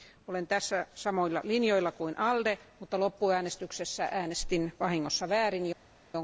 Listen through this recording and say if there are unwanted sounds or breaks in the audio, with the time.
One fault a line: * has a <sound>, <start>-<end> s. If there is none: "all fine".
all fine